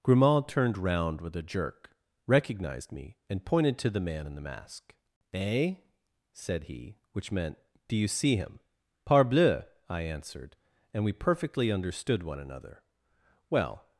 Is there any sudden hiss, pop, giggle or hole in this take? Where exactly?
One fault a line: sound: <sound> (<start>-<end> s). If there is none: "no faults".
no faults